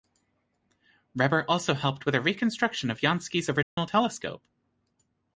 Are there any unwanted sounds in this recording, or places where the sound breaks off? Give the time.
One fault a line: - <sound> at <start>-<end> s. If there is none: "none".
- dropout at 3.6-3.8 s